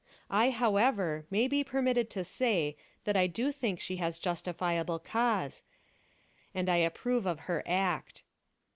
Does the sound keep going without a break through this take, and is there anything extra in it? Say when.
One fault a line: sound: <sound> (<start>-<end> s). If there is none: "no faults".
no faults